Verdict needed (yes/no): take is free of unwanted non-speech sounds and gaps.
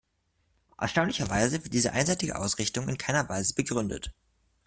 yes